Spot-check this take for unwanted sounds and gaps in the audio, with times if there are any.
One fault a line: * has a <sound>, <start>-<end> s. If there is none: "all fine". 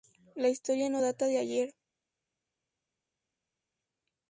all fine